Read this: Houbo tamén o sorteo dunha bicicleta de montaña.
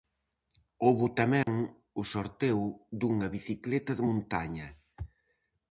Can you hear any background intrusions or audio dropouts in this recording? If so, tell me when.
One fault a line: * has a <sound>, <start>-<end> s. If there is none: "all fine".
* has a dropout, 1.4-1.5 s